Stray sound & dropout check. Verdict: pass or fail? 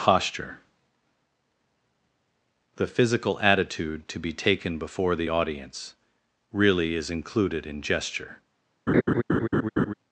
fail